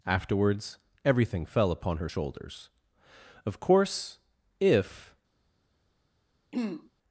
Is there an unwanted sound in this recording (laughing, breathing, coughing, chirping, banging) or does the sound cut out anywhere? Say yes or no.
yes